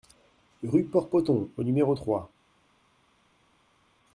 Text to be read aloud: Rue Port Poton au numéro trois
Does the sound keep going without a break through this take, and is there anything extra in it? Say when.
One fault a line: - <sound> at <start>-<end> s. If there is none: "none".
none